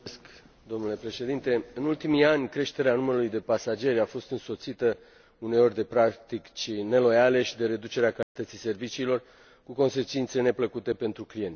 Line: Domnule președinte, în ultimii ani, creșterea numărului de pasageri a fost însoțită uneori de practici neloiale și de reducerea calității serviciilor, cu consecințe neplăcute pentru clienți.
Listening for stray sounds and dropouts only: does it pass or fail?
fail